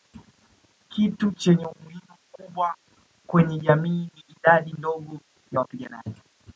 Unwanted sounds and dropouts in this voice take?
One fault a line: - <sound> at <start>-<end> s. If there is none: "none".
none